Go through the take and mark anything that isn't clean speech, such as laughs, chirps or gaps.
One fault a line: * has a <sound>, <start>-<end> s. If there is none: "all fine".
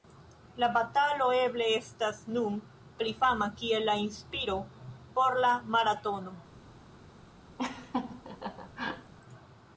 * has a laugh, 7.6-9.1 s